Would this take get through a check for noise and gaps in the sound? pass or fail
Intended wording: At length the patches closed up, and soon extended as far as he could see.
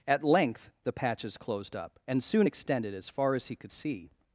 pass